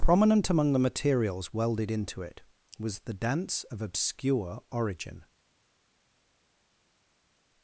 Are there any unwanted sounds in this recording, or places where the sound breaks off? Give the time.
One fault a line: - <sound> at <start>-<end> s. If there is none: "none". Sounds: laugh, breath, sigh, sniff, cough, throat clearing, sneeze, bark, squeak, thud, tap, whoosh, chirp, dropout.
none